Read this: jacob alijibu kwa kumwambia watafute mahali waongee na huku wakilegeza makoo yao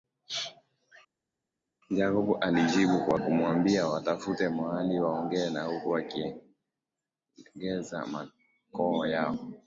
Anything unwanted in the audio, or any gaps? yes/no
no